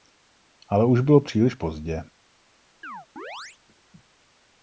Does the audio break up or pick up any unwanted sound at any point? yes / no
yes